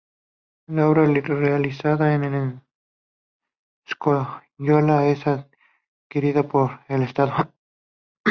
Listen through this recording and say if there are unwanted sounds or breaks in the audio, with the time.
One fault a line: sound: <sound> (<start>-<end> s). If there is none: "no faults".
no faults